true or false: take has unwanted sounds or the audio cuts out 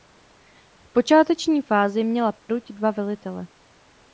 true